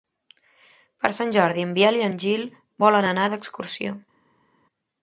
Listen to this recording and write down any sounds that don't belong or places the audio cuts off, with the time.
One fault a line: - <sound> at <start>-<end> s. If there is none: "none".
none